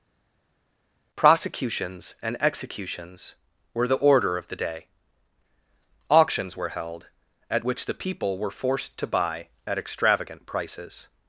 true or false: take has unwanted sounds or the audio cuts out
false